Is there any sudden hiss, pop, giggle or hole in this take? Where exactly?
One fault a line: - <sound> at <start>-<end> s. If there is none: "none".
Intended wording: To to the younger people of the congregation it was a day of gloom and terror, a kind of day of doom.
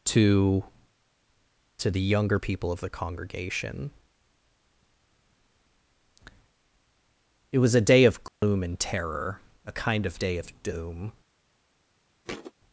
- dropout at 8.3-8.4 s
- thud at 12.2-12.5 s